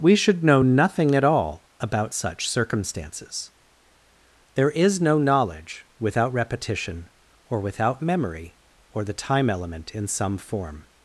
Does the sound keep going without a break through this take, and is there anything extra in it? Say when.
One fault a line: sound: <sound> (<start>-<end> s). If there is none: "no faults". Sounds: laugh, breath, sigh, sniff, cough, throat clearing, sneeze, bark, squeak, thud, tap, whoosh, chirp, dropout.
no faults